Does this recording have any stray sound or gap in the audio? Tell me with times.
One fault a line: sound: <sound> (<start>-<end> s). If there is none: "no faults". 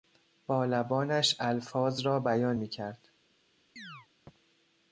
sound: chirp (3.8-4.1 s)